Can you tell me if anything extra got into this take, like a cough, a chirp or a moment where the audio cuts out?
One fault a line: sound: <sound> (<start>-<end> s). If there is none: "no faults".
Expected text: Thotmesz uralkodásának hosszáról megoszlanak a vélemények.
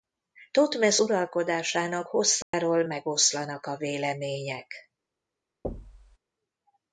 sound: dropout (2.4-2.5 s)
sound: thud (5.6-6.2 s)